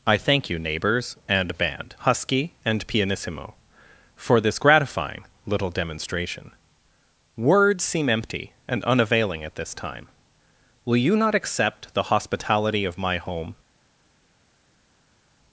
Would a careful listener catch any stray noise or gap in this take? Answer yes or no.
no